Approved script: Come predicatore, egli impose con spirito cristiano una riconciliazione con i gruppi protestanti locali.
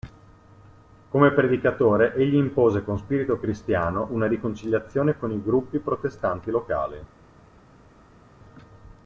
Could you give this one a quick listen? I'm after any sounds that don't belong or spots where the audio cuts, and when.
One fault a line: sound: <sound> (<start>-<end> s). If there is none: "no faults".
no faults